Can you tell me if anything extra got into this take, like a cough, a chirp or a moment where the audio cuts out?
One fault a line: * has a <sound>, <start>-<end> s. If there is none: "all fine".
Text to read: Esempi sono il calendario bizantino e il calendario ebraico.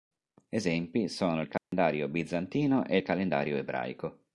* has a dropout, 1.6-1.7 s